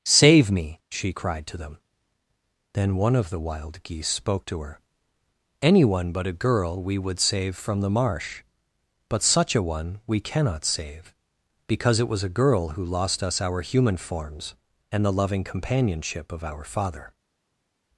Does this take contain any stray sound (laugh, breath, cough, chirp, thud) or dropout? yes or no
no